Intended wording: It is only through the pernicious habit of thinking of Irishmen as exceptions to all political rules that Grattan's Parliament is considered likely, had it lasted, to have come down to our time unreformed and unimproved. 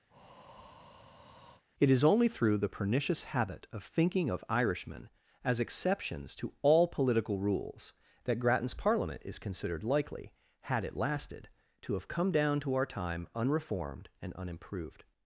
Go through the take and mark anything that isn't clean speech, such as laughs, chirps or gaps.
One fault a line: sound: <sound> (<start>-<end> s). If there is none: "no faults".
sound: breath (0.1-1.6 s)